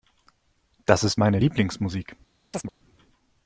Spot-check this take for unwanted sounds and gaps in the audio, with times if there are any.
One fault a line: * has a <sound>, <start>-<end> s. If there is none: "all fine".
* has a chirp, 2.5-2.7 s